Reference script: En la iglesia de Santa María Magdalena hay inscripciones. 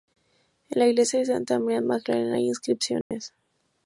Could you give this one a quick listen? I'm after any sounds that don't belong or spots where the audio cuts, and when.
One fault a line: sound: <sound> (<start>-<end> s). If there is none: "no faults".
sound: dropout (3.0-3.1 s)